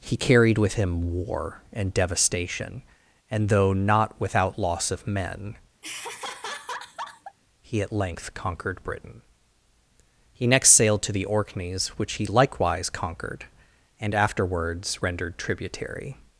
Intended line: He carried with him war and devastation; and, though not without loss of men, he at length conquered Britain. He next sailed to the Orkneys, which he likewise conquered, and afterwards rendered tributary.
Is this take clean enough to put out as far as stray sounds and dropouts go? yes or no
no